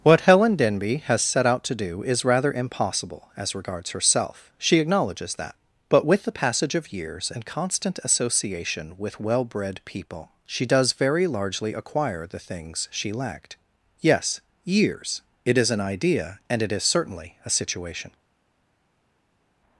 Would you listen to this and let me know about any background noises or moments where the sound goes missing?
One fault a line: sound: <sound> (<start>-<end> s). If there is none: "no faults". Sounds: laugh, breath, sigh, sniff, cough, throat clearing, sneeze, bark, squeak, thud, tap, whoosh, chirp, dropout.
no faults